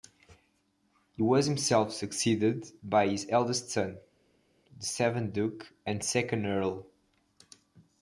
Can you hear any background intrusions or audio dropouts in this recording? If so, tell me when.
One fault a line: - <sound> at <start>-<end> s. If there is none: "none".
none